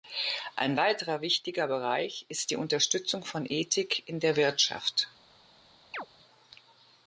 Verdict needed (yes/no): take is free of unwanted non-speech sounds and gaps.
no